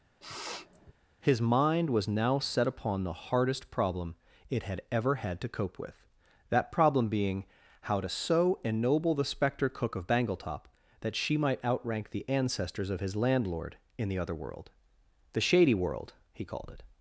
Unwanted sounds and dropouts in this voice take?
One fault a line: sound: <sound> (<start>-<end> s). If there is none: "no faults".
sound: sniff (0.2-0.9 s)